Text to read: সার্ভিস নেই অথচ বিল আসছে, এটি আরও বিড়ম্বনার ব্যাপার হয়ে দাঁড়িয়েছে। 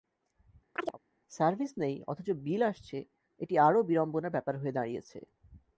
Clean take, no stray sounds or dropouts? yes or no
no